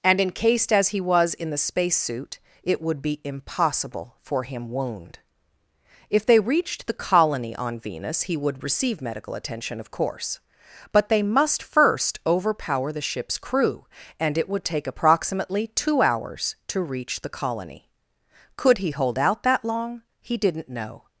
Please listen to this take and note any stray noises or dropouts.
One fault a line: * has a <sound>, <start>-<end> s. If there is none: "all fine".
all fine